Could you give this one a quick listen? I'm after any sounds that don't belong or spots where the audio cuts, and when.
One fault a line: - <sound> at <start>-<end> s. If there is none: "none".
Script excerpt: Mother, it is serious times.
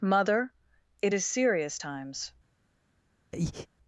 - breath at 3.3-3.7 s